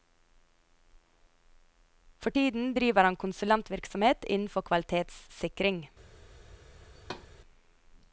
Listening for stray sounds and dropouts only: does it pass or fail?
fail